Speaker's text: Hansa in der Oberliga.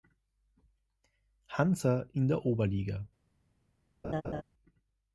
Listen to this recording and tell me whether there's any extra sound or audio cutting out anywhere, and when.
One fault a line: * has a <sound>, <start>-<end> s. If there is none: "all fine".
* has a laugh, 4.0-4.4 s